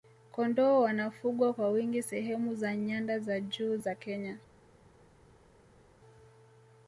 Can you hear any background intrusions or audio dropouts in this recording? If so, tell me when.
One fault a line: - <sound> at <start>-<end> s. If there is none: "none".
none